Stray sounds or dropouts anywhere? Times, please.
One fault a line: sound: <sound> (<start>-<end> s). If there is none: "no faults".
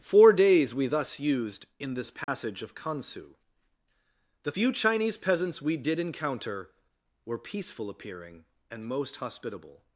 sound: dropout (2.2-2.3 s)